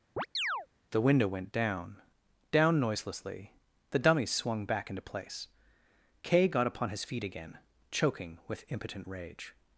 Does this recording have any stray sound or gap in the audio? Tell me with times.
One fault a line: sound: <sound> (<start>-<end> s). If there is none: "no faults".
sound: chirp (0.2-0.7 s)